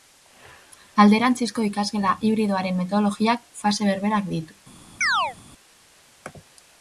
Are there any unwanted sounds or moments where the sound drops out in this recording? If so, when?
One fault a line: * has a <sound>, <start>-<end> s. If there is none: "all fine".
* has a chirp, 5.0-5.4 s